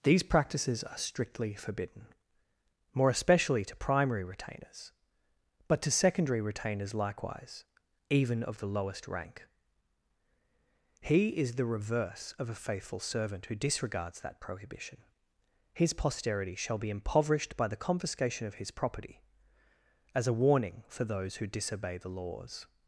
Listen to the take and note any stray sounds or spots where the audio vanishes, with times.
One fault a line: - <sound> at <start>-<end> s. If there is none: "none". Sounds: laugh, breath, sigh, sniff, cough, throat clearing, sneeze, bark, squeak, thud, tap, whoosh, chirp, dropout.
none